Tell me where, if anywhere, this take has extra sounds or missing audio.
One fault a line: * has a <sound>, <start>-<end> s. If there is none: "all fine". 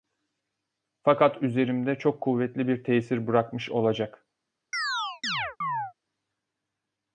* has a chirp, 4.7-5.9 s